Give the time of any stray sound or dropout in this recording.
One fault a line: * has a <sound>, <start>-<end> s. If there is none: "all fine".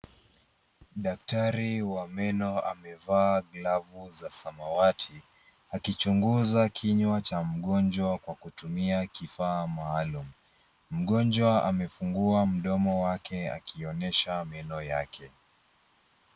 all fine